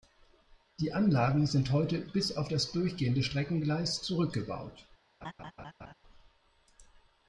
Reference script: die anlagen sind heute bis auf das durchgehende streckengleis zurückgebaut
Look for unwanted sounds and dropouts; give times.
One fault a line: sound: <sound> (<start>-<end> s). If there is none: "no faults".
sound: laugh (5.2-5.9 s)